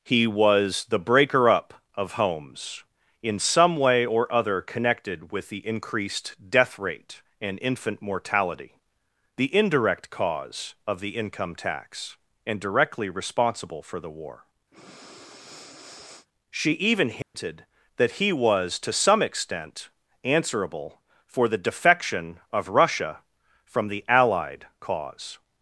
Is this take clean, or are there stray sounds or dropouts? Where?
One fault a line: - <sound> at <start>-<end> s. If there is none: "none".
- breath at 14.7-16.3 s
- dropout at 17.2-17.3 s